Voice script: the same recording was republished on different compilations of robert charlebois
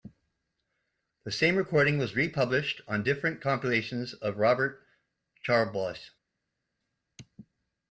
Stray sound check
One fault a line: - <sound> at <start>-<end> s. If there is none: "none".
none